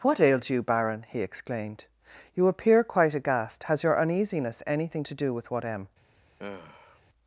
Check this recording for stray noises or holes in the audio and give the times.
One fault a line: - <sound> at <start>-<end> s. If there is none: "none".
- sigh at 6.4-7.0 s